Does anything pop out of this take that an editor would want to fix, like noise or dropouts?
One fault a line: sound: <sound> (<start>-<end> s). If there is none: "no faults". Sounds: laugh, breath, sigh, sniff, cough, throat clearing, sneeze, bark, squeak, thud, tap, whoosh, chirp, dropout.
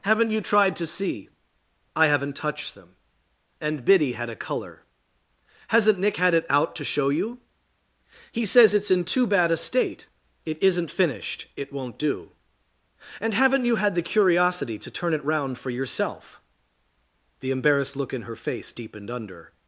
no faults